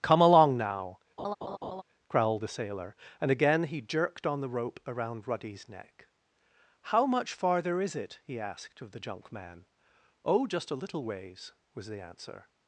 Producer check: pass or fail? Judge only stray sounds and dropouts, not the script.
fail